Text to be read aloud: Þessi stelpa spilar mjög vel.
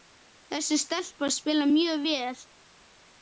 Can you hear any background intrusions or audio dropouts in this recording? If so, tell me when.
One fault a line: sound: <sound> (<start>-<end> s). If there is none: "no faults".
no faults